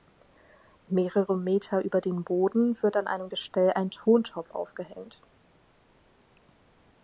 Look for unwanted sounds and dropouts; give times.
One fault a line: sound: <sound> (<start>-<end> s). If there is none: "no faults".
no faults